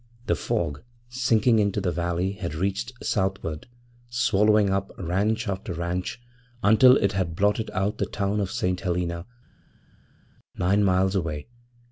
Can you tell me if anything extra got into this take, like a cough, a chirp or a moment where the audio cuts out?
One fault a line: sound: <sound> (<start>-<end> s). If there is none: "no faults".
no faults